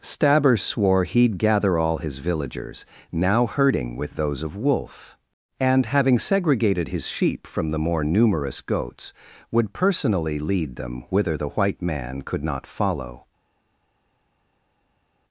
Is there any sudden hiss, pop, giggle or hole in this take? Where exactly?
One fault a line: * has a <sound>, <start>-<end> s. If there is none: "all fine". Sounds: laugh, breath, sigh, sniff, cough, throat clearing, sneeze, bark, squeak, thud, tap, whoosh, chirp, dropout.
all fine